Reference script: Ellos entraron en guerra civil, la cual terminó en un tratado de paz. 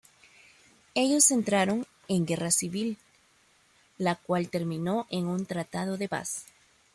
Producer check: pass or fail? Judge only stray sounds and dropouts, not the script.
pass